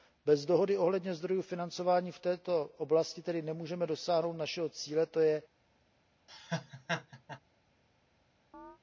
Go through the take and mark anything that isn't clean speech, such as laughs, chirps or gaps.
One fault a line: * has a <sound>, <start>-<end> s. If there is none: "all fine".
* has a laugh, 6.3-7.4 s
* has a chirp, 8.5-8.8 s